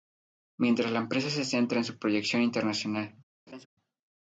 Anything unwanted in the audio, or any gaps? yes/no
yes